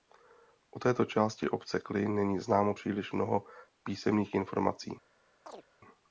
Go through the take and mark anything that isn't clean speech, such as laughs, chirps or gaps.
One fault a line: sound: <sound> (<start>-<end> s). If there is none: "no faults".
sound: chirp (5.5-5.7 s)